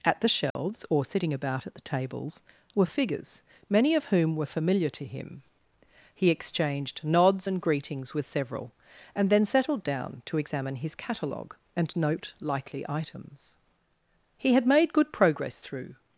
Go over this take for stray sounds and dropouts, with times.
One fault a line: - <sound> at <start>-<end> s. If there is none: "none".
- dropout at 0.5-0.6 s